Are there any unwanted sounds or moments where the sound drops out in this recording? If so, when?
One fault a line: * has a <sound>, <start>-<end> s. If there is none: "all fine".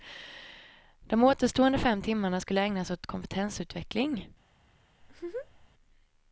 * has a laugh, 5.0-5.7 s